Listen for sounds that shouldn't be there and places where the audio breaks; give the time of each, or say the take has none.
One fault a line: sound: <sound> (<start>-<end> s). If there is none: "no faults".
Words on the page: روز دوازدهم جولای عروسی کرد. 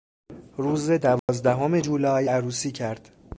sound: dropout (1.2-1.3 s)